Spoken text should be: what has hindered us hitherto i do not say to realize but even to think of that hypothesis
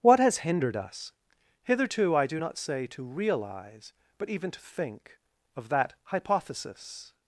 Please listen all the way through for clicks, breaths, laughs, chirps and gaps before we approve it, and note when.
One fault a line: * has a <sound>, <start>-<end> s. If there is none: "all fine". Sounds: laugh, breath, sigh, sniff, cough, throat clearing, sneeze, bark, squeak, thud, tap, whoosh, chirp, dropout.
all fine